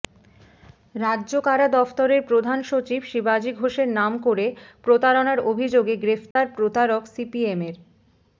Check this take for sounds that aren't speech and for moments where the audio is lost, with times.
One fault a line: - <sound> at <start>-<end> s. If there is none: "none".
- dropout at 6.3-6.4 s